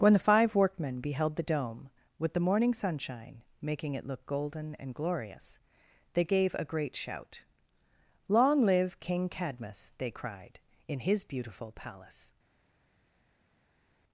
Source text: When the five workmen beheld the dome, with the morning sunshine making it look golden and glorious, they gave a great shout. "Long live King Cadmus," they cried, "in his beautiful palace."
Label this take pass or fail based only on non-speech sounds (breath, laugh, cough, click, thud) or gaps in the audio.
pass